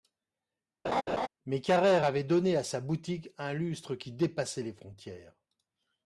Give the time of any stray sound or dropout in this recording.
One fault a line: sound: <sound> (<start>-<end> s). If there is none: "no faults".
sound: laugh (0.8-1.3 s)